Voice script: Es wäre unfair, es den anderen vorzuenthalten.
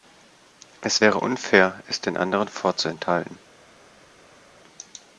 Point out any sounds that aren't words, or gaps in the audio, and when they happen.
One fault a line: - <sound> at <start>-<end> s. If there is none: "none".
none